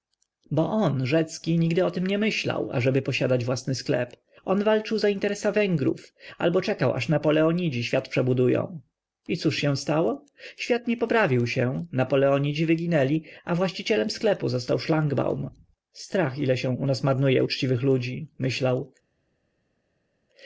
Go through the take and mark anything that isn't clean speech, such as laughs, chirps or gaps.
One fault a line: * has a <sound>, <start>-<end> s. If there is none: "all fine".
all fine